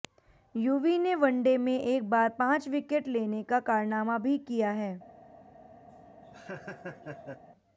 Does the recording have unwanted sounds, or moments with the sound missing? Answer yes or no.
yes